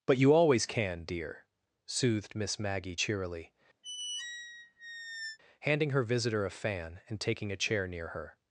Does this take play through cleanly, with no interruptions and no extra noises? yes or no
no